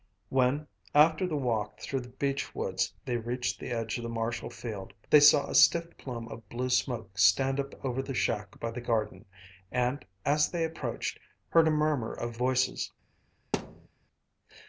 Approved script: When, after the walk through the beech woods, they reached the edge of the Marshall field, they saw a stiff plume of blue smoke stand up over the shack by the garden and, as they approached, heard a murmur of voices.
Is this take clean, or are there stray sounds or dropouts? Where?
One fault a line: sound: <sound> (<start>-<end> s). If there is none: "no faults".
sound: thud (13.5-13.9 s)